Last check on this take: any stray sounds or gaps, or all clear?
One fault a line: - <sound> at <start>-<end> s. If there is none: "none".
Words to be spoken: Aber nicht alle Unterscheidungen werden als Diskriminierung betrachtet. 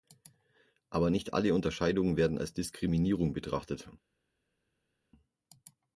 none